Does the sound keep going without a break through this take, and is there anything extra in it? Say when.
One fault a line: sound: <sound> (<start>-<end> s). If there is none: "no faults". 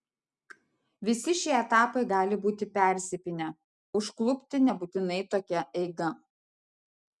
no faults